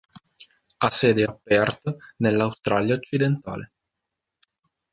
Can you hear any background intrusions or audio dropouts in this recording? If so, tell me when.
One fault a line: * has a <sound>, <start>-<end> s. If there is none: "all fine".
all fine